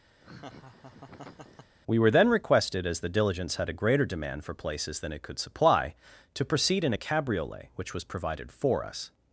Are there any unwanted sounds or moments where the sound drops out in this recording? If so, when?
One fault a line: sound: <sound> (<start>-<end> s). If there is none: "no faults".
sound: laugh (0.2-1.8 s)